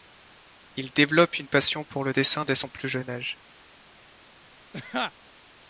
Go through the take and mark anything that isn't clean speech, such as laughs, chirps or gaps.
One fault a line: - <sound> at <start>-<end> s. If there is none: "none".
- laugh at 4.7-5.1 s